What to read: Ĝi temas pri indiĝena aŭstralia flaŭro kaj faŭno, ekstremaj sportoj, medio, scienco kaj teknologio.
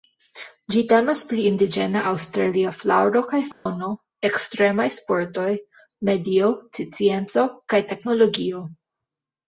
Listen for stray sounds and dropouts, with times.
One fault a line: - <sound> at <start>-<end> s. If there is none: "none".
- dropout at 3.5-3.7 s